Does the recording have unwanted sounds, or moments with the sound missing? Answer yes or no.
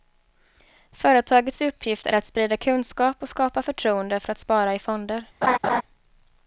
yes